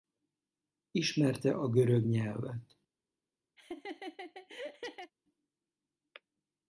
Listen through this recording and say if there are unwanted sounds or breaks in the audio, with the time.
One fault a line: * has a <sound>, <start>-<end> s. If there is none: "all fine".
* has a laugh, 3.6-5.1 s